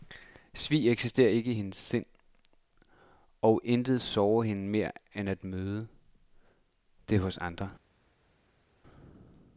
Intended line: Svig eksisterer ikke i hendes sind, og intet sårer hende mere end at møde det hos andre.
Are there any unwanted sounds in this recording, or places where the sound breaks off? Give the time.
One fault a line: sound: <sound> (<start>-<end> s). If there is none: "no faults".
no faults